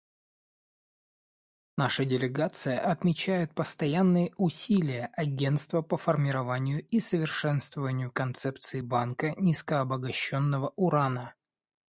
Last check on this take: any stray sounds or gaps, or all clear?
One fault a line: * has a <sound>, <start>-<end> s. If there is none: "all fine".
all fine